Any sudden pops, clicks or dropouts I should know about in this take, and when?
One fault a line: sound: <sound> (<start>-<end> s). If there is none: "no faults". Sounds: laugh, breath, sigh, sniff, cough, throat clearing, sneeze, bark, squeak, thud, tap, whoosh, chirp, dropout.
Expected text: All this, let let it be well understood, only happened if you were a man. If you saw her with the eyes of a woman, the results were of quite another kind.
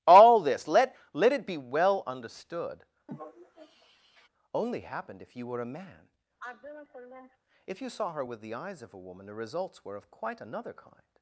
sound: sigh (3.1-4.3 s)
sound: sigh (6.4-7.4 s)